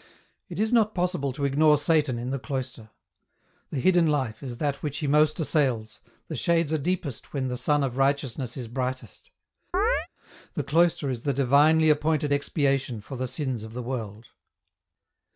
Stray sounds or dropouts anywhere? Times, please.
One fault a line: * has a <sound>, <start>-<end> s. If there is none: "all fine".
* has a chirp, 9.7-10.1 s